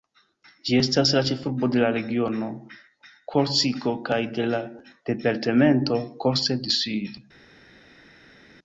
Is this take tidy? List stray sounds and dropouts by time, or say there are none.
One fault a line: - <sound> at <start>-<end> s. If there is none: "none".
none